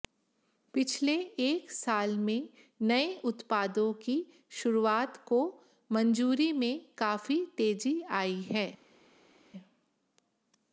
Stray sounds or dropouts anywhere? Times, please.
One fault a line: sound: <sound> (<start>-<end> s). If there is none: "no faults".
no faults